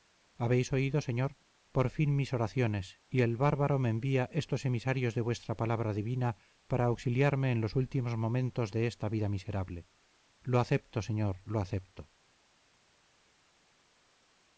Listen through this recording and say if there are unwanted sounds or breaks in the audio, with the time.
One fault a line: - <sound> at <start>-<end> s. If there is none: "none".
none